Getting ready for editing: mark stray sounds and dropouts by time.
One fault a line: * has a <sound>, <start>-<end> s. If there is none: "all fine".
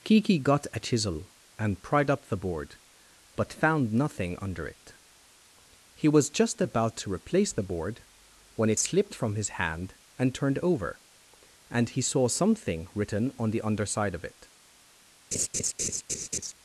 * has a laugh, 15.3-16.5 s